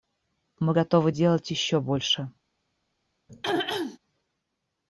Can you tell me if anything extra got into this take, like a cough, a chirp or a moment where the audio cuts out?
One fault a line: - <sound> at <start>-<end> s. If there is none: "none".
- throat clearing at 3.3-4.0 s